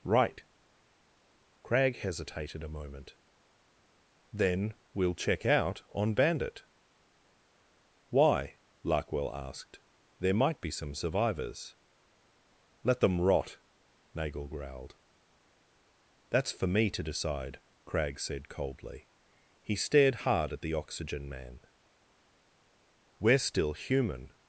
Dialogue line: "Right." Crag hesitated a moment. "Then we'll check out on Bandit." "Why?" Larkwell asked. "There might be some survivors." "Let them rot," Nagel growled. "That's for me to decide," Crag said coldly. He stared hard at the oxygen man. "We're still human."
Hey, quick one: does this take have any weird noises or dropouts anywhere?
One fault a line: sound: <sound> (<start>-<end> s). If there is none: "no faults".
no faults